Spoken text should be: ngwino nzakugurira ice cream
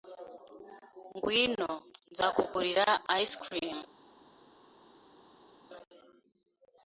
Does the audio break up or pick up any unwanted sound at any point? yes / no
no